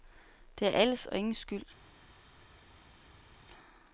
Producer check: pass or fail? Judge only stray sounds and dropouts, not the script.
pass